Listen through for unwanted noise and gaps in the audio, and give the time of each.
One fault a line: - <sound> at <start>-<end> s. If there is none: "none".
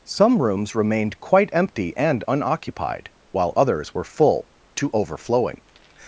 none